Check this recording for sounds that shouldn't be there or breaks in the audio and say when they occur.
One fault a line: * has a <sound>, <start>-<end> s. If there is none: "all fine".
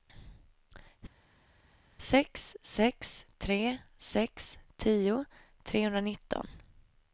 all fine